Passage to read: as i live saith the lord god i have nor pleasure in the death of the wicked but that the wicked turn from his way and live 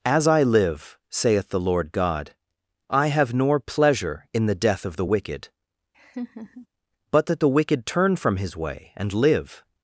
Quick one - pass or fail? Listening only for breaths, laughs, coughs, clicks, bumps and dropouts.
fail